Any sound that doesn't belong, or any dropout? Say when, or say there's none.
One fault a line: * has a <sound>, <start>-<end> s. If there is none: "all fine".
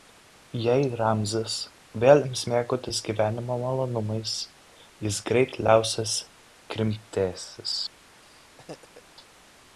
* has a laugh, 8.2-9.0 s